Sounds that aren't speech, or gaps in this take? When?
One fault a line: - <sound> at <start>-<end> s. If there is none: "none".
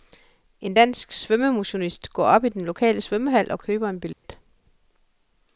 - dropout at 4.1-4.2 s